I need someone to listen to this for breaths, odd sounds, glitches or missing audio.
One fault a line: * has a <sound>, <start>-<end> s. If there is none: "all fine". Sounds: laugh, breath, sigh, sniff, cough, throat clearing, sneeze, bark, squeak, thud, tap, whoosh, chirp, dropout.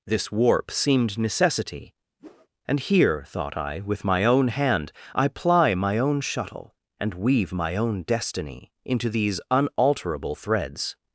* has a whoosh, 2.2-2.5 s